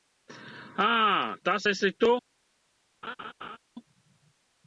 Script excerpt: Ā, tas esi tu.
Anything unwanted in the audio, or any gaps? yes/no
yes